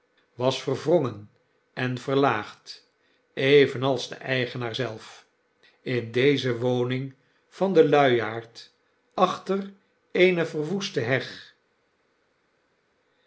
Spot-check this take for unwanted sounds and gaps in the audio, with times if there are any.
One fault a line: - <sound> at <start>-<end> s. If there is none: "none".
none